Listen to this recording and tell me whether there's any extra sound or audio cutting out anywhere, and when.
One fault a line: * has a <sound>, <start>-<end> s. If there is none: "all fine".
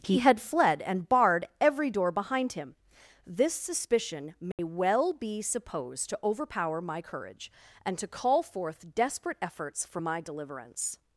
* has a dropout, 4.5-4.6 s